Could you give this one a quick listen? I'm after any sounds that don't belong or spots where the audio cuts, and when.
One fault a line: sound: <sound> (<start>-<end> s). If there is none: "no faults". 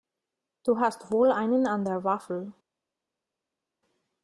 no faults